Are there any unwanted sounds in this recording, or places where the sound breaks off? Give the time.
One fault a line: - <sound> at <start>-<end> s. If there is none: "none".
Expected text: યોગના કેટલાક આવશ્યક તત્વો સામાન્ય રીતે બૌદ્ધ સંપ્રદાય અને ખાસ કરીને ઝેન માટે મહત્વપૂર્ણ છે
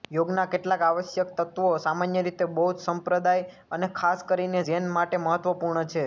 none